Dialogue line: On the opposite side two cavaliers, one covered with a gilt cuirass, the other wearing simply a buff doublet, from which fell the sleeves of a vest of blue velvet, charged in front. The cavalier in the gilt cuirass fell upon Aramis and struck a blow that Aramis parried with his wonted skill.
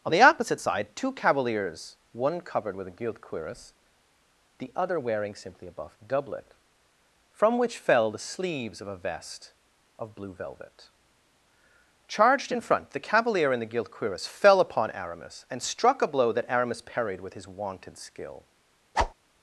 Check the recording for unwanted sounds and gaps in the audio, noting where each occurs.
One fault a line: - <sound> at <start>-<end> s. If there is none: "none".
- whoosh at 18.9-19.1 s